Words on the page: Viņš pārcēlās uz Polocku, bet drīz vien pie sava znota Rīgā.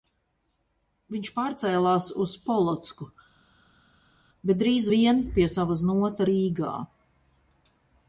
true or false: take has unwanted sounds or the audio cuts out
false